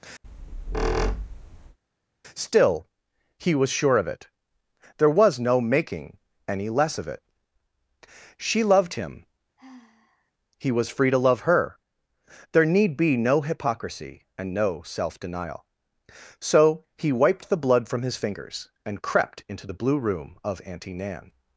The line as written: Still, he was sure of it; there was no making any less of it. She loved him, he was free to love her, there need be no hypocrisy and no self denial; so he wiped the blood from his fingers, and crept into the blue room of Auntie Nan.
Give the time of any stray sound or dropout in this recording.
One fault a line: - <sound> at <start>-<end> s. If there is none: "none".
- squeak at 0.2-1.8 s
- sigh at 9.6-10.3 s